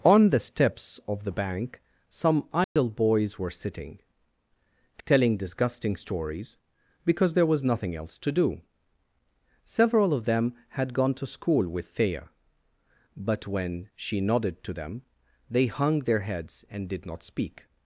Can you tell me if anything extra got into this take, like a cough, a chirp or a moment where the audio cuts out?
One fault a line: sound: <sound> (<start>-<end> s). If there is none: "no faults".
sound: dropout (2.6-2.8 s)